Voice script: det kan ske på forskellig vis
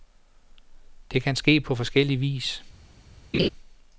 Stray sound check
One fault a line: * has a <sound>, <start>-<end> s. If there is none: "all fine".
* has a laugh, 3.3-3.5 s